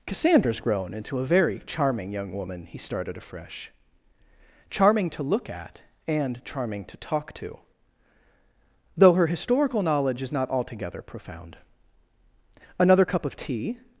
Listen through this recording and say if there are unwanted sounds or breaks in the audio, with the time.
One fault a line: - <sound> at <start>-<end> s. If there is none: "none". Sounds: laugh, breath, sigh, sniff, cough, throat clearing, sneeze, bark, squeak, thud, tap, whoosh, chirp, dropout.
none